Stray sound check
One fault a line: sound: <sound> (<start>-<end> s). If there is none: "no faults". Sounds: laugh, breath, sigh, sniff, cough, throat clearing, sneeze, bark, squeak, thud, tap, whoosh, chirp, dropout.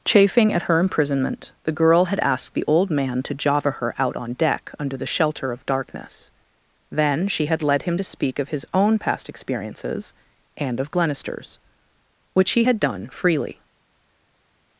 no faults